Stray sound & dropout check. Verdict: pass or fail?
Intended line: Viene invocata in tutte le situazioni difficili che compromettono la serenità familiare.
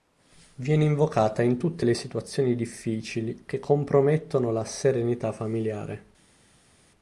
pass